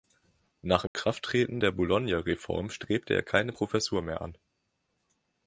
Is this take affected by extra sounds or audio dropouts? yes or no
yes